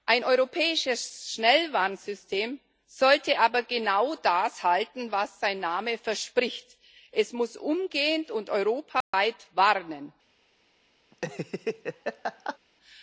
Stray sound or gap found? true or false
true